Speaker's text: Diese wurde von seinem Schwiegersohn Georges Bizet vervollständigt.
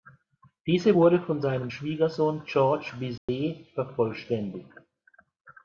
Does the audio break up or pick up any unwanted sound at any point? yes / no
yes